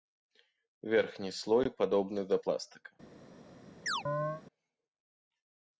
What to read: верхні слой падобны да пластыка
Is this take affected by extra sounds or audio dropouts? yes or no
yes